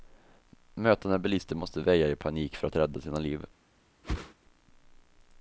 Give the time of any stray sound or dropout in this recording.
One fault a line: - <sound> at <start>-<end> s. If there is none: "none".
- whoosh at 4.0-4.3 s